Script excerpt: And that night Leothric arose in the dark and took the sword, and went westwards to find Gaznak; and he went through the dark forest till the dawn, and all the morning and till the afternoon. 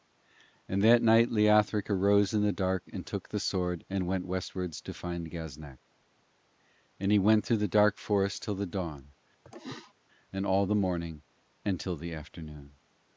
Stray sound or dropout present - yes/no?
yes